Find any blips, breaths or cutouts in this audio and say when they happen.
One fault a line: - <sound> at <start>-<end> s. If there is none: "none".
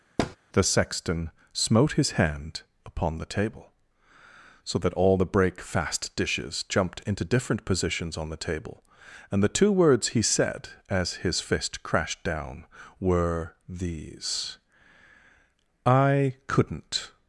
- thud at 0.2-0.4 s